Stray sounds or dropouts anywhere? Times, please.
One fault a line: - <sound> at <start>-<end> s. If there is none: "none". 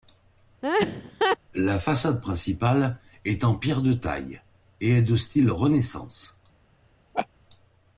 - laugh at 0.6-1.4 s
- laugh at 7.1-7.3 s